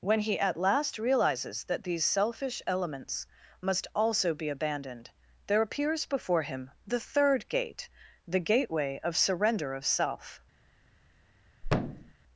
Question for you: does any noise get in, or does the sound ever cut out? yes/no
yes